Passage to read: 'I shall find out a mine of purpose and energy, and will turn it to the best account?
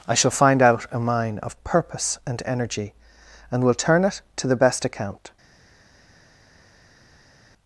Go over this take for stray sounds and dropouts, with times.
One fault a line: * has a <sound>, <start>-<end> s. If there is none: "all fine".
all fine